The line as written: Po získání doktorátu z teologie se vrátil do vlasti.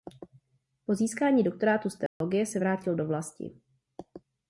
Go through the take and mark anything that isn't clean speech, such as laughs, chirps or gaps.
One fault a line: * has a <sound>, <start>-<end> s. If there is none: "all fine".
* has a dropout, 2.1-2.2 s